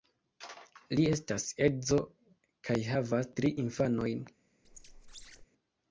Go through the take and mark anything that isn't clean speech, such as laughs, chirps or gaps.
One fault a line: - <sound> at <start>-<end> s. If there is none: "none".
- squeak at 4.6-5.5 s